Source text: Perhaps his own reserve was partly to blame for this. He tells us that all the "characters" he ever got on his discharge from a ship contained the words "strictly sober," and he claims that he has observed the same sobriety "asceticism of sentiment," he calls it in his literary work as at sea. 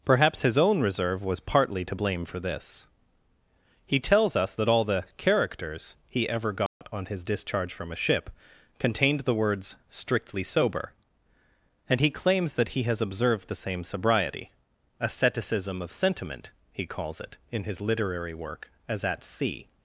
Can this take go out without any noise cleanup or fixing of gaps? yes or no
no